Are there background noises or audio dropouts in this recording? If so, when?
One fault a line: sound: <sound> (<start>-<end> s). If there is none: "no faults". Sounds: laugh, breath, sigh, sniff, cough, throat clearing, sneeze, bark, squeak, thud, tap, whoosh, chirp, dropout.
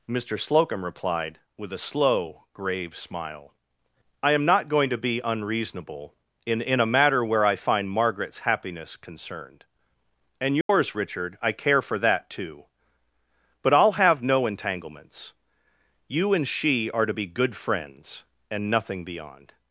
sound: dropout (10.6-10.7 s)